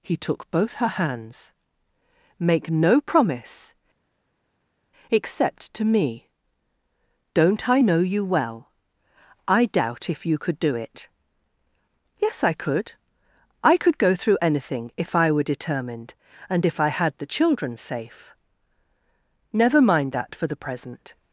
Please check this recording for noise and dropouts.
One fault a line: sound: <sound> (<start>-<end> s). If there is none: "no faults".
no faults